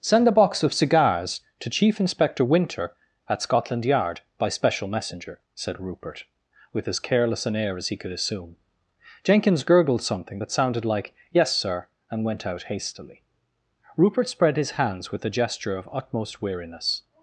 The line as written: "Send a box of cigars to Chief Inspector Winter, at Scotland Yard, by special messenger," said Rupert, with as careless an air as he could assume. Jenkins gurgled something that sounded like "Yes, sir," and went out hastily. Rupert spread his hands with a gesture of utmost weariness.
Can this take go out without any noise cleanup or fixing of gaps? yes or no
yes